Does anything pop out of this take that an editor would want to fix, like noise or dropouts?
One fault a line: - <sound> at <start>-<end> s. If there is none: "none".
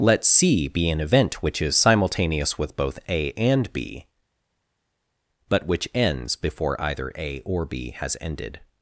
none